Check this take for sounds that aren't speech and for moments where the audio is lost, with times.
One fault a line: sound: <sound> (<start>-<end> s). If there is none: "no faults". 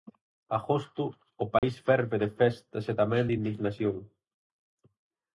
sound: dropout (1.6-1.6 s)